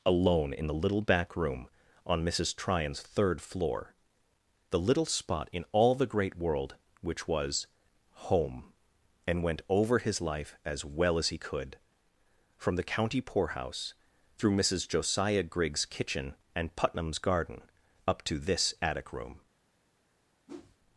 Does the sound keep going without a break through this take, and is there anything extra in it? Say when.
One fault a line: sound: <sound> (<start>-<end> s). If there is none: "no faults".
sound: whoosh (20.5-20.8 s)